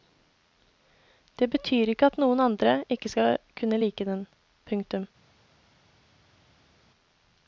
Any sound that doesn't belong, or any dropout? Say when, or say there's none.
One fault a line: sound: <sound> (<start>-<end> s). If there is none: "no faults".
no faults